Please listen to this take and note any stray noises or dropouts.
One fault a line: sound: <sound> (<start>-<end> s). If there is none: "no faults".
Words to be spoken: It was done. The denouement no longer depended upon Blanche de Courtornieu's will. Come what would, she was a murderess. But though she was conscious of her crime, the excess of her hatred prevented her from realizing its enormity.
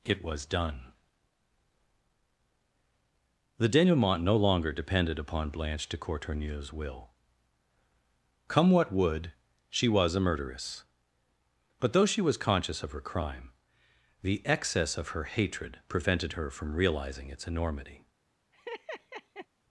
sound: laugh (18.5-19.5 s)